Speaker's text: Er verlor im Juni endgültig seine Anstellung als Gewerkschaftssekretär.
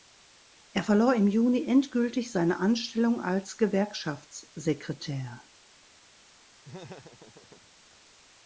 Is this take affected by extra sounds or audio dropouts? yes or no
yes